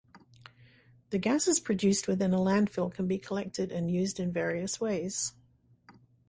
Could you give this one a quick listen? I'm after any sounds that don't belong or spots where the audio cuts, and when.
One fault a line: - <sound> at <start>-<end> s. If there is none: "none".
none